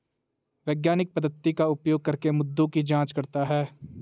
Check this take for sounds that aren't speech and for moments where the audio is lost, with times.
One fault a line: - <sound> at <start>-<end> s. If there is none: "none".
none